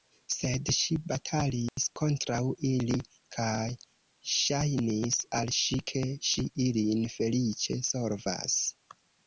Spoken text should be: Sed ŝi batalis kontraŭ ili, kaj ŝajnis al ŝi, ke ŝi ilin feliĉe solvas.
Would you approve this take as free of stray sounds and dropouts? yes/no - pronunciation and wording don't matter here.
no